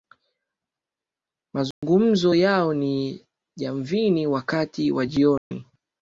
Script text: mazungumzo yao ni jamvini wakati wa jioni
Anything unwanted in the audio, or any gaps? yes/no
yes